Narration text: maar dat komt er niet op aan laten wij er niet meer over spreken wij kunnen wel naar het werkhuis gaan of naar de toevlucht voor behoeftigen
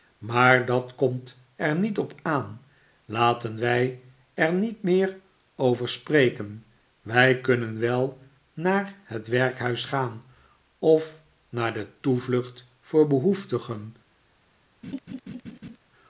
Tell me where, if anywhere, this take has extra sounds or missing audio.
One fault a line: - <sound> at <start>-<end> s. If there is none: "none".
- laugh at 14.8-15.8 s